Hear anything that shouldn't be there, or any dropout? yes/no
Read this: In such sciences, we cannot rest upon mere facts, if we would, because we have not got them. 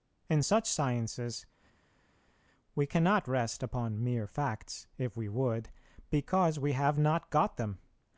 no